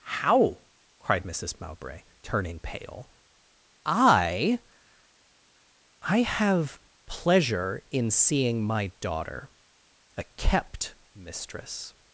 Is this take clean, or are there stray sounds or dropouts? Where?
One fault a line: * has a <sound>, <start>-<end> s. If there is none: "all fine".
all fine